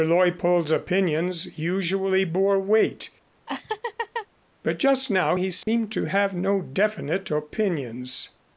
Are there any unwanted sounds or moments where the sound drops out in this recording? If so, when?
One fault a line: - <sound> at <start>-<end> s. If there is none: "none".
- laugh at 3.5-4.3 s
- dropout at 5.6-5.7 s